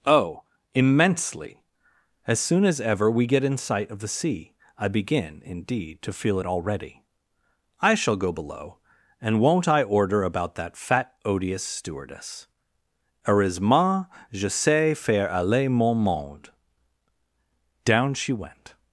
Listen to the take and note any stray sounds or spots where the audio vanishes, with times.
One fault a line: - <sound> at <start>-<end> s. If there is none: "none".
none